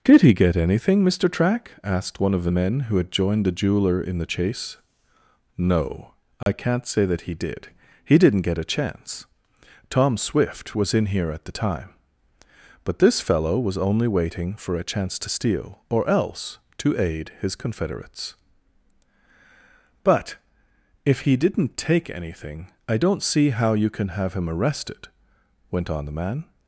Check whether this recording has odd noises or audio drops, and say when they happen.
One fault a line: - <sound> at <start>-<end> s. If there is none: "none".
- dropout at 6.4-6.5 s